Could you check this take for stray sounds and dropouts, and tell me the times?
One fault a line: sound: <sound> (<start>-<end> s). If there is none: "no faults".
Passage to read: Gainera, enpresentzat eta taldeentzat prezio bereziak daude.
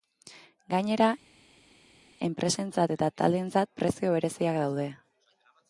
no faults